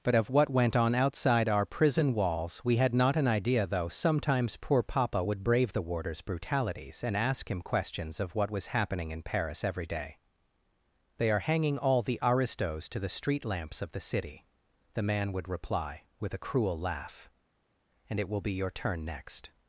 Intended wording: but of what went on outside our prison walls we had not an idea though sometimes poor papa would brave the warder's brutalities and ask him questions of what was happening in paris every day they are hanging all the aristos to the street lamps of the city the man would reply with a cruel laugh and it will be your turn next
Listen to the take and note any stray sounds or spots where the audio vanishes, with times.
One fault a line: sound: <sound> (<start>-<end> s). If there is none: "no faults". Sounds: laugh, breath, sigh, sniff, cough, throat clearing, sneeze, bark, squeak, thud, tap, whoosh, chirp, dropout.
no faults